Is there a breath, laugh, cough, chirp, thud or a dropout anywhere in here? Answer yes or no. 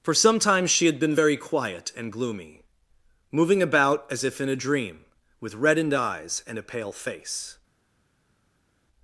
no